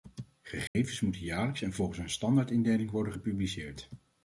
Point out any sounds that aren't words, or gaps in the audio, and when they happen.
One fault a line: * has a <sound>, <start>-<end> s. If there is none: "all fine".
* has a dropout, 0.7-0.8 s